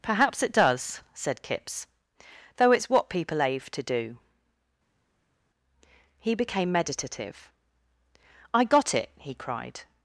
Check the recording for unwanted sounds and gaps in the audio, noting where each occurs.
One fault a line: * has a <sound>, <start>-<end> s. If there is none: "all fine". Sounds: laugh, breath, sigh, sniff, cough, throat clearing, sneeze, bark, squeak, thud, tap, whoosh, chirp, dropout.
all fine